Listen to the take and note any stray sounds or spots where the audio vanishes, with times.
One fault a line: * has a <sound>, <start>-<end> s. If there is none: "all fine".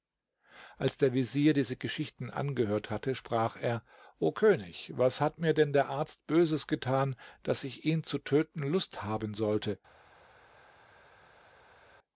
all fine